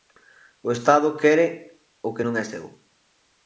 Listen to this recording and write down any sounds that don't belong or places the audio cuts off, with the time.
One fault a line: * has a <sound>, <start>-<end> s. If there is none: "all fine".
all fine